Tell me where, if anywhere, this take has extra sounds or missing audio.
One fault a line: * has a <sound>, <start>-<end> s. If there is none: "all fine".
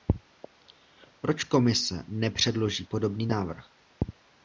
all fine